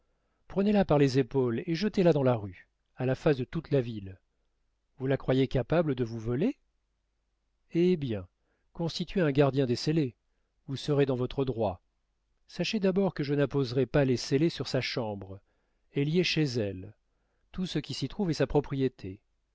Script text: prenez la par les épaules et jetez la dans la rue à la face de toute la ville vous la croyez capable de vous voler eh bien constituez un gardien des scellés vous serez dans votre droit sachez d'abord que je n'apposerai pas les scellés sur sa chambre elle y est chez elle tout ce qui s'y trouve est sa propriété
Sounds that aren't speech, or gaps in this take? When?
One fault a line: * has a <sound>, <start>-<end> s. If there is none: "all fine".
all fine